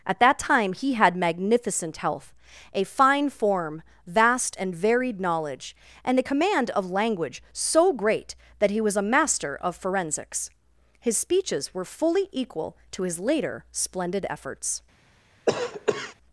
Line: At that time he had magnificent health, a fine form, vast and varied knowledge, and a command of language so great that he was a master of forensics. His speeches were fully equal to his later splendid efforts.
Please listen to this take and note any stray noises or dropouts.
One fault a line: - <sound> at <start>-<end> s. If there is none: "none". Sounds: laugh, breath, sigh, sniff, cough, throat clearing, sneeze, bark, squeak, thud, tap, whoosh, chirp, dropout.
- cough at 15.5-16.1 s